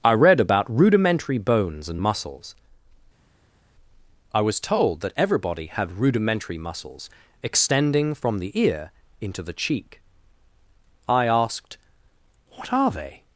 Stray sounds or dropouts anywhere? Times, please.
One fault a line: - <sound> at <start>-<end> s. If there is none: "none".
none